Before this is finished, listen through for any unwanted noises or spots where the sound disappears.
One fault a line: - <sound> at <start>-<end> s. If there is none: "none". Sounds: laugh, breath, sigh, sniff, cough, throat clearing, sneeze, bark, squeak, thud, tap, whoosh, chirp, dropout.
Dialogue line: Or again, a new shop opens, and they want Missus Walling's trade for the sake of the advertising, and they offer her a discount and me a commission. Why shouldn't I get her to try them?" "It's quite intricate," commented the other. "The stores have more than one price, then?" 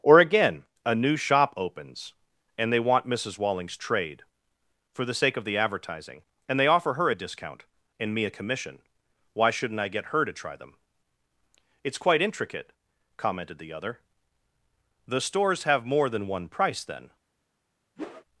- whoosh at 18.0-18.2 s